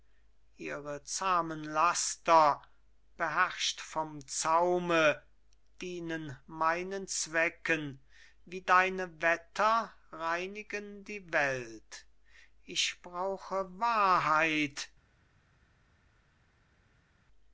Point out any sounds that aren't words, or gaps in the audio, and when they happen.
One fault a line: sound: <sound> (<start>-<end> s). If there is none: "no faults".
no faults